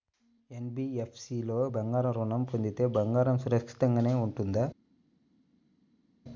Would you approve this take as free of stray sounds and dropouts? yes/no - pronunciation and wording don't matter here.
yes